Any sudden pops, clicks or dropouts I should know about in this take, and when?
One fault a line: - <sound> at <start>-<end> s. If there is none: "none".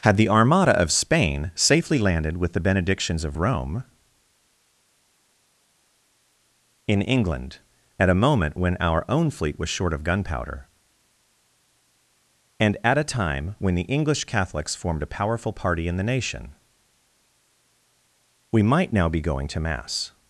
none